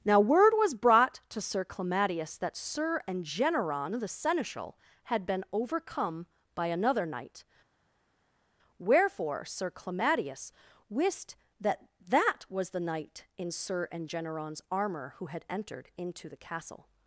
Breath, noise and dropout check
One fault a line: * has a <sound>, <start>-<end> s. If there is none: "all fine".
all fine